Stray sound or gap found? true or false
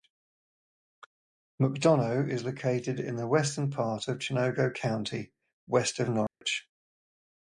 true